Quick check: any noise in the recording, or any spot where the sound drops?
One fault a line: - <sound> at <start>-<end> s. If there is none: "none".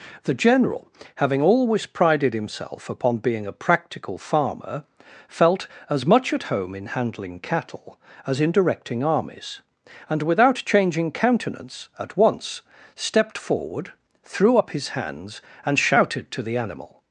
none